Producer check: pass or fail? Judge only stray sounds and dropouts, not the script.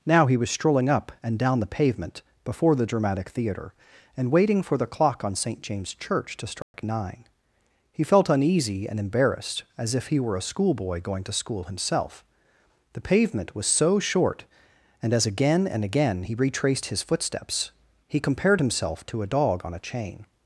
fail